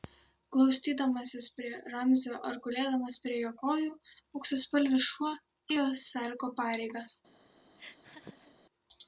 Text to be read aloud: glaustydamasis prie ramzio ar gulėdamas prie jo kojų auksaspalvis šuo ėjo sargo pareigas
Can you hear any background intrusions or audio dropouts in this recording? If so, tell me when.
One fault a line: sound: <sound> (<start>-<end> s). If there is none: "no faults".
sound: laugh (7.8-8.5 s)